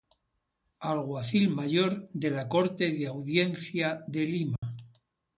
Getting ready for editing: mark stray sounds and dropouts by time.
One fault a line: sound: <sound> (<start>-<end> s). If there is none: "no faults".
sound: dropout (4.6-4.6 s)